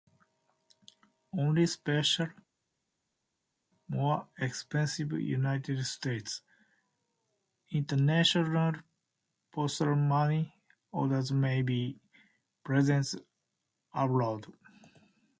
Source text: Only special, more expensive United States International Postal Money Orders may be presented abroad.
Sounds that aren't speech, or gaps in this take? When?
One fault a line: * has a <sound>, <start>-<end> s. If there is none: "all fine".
all fine